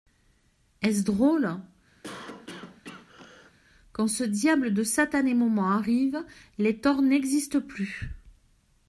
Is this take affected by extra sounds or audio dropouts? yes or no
yes